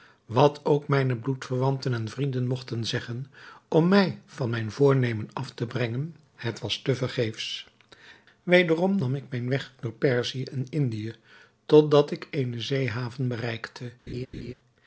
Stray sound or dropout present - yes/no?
yes